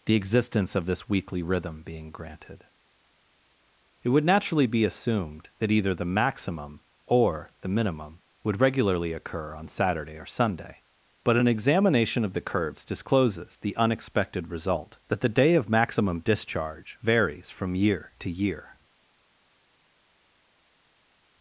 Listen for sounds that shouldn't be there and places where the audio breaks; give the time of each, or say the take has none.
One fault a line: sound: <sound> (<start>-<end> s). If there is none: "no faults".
no faults